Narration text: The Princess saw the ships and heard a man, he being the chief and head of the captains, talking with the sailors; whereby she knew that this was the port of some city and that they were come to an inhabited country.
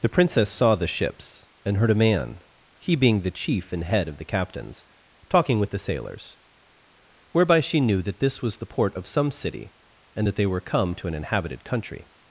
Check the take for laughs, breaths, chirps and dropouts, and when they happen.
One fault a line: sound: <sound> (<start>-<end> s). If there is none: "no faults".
no faults